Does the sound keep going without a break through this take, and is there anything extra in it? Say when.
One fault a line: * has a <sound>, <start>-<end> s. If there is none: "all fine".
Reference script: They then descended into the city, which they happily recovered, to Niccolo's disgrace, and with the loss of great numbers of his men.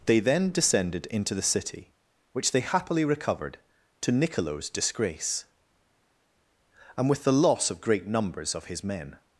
all fine